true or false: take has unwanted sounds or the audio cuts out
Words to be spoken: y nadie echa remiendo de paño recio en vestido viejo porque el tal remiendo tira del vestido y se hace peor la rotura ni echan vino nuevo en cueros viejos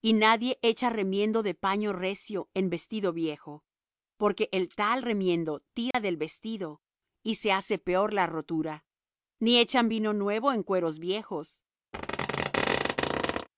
true